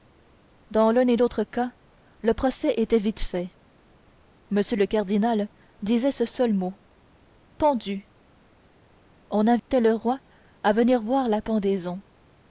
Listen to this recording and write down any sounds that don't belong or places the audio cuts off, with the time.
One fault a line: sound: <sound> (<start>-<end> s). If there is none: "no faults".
sound: dropout (9.6-9.7 s)